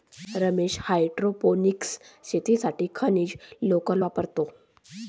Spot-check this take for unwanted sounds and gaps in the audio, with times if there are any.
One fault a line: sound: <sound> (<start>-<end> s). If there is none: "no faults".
no faults